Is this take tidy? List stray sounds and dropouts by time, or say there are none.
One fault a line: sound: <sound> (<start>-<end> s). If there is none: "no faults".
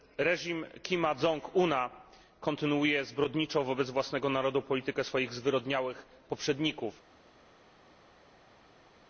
no faults